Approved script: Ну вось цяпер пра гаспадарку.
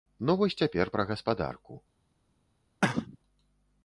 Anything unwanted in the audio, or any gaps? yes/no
yes